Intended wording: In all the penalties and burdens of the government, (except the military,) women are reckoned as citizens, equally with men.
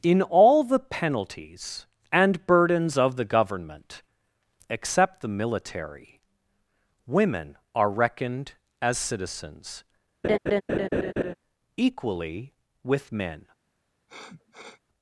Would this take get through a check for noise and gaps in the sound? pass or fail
fail